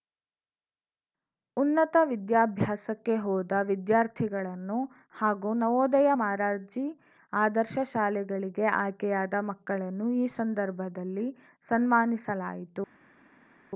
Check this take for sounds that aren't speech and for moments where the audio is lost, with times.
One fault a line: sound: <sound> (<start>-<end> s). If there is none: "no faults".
no faults